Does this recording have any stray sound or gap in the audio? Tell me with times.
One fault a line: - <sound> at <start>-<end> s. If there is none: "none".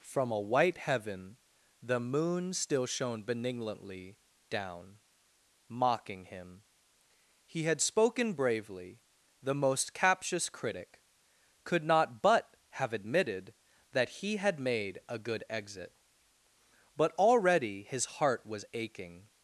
none